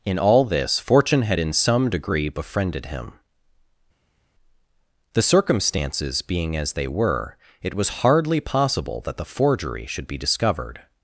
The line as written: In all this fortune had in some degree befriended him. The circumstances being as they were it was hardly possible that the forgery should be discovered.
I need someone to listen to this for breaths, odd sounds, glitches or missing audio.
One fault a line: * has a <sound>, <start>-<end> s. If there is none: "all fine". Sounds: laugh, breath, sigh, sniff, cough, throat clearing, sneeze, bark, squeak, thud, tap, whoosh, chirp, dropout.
all fine